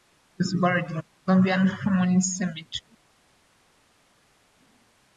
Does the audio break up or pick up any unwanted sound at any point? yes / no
no